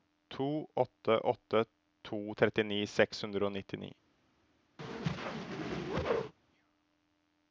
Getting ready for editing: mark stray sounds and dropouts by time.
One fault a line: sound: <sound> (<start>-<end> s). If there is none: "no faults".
sound: whoosh (4.8-6.3 s)